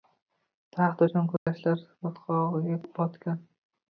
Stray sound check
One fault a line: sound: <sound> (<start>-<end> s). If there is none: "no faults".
sound: dropout (1.4-1.5 s)